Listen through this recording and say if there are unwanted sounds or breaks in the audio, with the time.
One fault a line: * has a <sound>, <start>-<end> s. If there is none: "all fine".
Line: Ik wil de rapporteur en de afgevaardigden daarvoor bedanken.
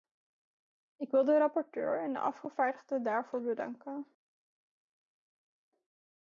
all fine